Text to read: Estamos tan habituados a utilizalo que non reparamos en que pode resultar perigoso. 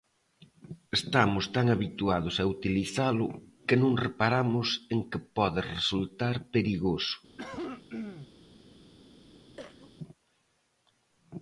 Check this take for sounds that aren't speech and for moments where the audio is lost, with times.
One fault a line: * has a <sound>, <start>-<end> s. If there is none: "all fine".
* has a cough, 7.4-8.3 s
* has a cough, 9.6-9.9 s